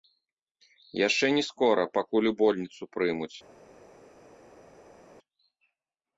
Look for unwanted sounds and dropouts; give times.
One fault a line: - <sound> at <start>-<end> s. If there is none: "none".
none